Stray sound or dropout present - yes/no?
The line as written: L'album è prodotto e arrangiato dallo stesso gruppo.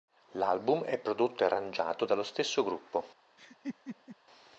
yes